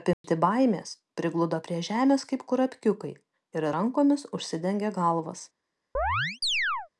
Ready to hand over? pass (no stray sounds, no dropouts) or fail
fail